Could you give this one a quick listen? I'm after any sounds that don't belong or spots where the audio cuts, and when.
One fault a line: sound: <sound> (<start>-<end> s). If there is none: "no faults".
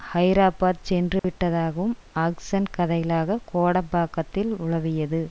sound: dropout (1.2-1.2 s)